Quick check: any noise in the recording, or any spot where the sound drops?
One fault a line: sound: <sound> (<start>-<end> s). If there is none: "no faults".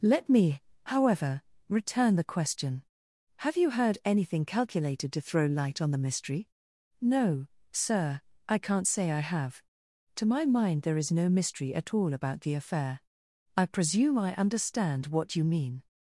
no faults